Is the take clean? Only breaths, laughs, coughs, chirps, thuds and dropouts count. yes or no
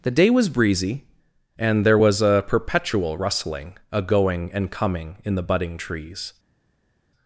yes